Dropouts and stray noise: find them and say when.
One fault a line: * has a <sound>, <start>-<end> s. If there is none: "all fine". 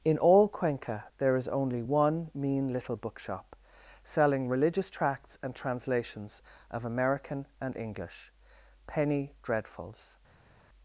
all fine